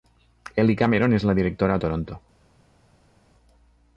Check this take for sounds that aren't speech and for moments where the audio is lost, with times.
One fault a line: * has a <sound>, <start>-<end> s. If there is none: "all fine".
all fine